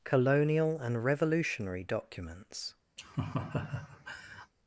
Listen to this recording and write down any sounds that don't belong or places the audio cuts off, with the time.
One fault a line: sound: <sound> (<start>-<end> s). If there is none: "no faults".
sound: laugh (3.0-4.5 s)